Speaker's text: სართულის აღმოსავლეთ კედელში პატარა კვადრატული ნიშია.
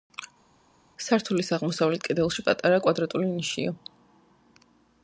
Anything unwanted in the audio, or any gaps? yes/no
no